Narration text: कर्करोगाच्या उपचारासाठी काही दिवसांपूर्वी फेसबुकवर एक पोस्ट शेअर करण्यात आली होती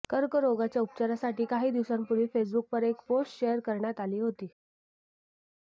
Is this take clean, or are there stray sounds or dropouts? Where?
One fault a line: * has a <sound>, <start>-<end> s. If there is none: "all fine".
all fine